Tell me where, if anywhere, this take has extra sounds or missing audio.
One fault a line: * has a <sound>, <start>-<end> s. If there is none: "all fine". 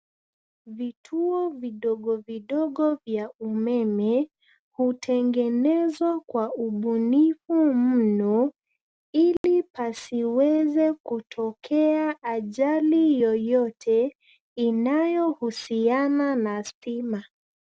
* has a dropout, 9.4-9.4 s